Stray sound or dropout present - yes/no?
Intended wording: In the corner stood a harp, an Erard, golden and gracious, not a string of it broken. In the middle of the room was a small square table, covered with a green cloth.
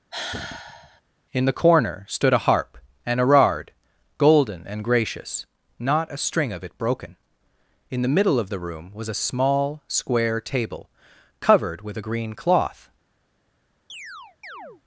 yes